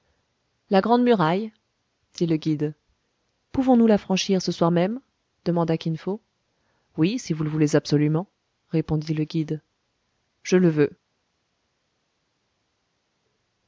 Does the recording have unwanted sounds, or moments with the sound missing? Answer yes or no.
no